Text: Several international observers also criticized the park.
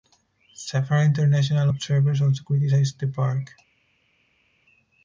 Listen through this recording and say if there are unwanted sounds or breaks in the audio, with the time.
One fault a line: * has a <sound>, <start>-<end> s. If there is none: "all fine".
all fine